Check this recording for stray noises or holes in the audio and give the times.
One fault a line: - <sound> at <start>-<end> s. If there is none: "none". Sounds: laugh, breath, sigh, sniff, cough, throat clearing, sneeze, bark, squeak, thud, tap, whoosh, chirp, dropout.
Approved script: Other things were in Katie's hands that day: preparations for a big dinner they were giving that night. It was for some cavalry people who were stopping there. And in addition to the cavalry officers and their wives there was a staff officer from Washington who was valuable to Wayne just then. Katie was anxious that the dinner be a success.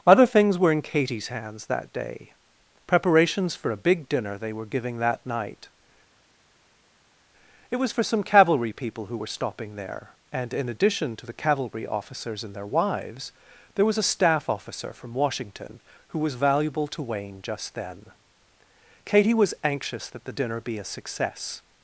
none